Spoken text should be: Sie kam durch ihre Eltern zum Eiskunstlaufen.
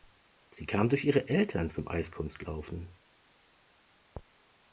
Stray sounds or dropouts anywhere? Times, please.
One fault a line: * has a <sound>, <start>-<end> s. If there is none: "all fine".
all fine